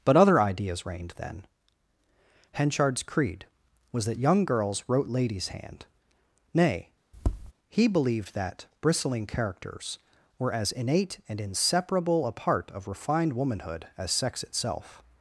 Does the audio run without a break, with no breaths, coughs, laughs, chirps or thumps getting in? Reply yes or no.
no